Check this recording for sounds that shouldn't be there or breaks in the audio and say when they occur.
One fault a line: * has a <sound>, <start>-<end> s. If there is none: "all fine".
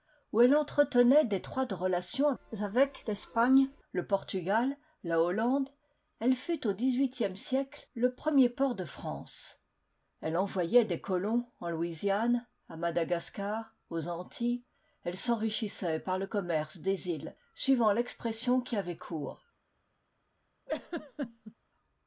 * has a laugh, 20.7-21.5 s